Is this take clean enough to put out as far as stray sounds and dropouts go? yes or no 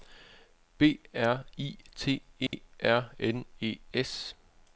no